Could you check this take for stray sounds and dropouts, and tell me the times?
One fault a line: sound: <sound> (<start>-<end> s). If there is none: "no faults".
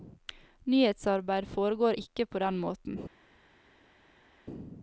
no faults